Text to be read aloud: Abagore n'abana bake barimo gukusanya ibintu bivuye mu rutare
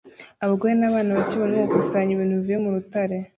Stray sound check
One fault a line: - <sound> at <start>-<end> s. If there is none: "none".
none